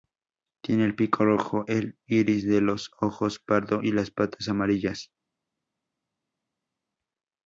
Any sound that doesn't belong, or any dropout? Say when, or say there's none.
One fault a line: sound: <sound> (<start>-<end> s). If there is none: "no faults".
no faults